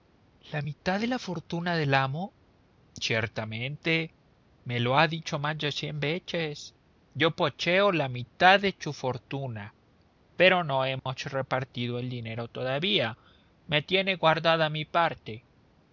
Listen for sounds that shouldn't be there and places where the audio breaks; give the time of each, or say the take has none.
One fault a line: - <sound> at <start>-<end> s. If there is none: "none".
- dropout at 11.0-11.1 s